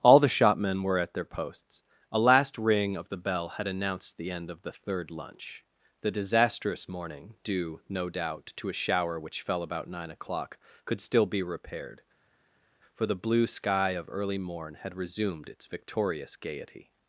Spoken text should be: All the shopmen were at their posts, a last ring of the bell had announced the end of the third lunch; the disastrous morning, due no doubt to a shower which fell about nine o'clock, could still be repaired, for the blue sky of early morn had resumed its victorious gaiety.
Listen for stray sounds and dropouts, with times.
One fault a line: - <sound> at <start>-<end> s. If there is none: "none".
none